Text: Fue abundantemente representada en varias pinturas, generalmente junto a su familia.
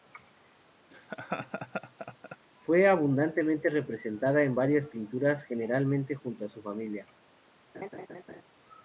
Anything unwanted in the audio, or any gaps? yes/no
yes